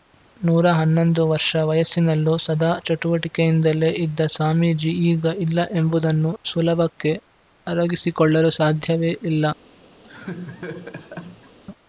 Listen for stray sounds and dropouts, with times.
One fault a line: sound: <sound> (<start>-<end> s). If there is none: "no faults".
sound: laugh (10.0-11.6 s)